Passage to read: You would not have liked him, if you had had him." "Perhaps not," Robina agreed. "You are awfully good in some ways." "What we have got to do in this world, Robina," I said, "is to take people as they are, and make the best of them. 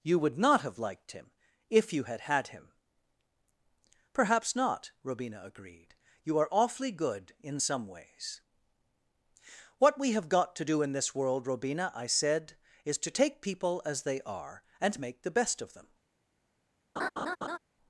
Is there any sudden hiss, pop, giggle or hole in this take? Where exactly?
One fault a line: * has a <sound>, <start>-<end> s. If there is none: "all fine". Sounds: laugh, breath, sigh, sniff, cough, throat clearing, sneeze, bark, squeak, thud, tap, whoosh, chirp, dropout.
* has a laugh, 17.0-17.6 s